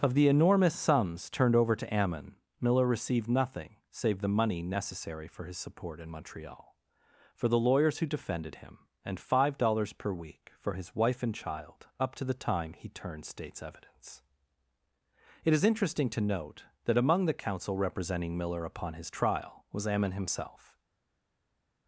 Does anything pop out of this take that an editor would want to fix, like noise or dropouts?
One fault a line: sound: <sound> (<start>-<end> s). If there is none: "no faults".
no faults